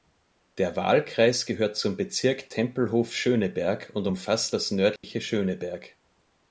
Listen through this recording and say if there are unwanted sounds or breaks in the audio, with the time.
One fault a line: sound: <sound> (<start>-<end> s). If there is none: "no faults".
sound: dropout (5.0-5.0 s)